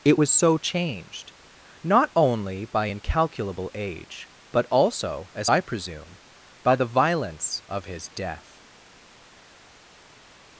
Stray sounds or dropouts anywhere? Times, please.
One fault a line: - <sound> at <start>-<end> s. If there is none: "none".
none